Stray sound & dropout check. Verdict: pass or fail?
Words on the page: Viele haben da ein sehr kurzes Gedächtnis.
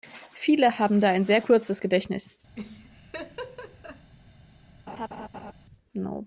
fail